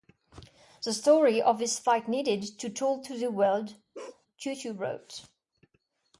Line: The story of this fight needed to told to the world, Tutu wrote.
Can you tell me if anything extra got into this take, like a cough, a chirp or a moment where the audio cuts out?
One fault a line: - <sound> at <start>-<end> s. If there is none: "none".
- bark at 3.9-4.3 s